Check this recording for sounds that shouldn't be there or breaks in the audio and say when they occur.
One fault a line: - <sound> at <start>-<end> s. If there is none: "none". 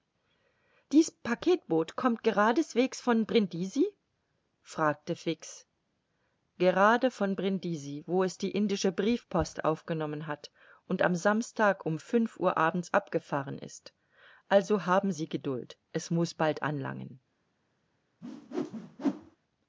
- whoosh at 18.2-19.4 s